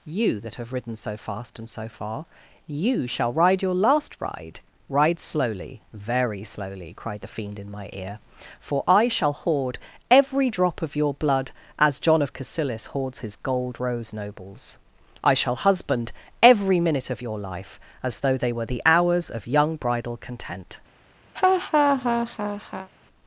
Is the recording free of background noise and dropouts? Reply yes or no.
no